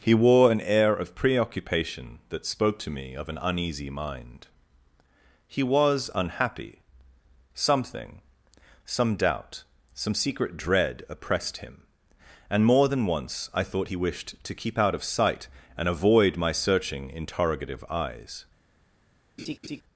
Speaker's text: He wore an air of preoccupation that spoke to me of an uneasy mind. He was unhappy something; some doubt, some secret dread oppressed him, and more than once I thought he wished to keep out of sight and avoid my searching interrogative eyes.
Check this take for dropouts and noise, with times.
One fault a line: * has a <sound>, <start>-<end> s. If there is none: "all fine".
* has a laugh, 19.4-19.8 s